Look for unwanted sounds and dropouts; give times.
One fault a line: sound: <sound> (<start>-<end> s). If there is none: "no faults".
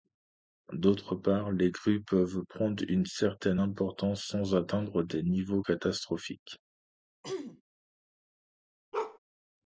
sound: throat clearing (7.2-7.6 s)
sound: bark (8.9-9.2 s)